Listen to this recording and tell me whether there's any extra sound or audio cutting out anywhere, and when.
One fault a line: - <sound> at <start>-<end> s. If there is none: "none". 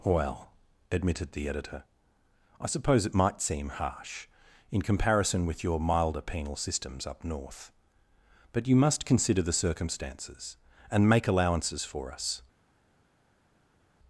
none